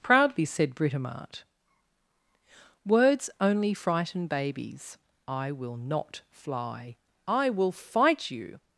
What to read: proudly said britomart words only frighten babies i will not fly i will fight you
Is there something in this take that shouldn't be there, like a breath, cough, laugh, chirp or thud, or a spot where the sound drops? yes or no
no